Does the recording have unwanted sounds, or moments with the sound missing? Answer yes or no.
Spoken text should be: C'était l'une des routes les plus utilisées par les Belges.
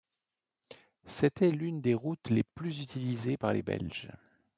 no